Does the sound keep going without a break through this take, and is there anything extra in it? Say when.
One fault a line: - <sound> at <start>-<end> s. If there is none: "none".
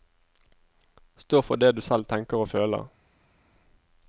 none